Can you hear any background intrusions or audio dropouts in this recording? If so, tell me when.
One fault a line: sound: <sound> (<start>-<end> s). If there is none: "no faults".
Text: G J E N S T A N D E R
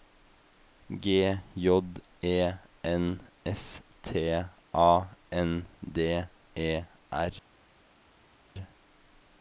no faults